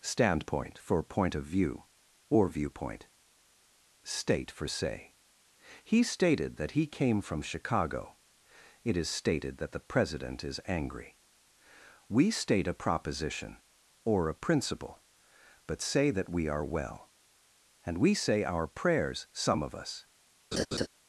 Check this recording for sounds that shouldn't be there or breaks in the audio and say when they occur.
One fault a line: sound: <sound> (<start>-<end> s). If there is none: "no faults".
sound: laugh (20.5-20.9 s)